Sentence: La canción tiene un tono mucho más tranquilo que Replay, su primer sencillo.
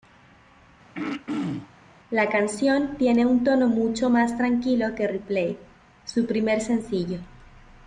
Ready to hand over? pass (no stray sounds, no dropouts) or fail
fail